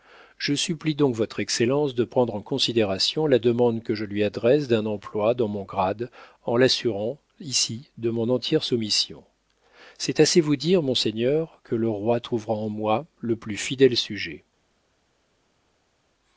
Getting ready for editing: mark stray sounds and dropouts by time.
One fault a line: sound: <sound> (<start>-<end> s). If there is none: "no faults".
no faults